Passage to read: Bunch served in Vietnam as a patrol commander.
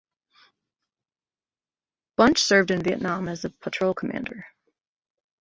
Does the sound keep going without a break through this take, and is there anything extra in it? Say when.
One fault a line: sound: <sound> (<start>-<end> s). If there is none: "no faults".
no faults